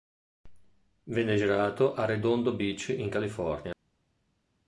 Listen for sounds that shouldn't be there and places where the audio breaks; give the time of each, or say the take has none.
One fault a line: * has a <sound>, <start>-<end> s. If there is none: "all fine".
all fine